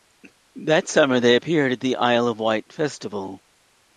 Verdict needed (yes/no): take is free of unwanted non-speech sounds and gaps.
yes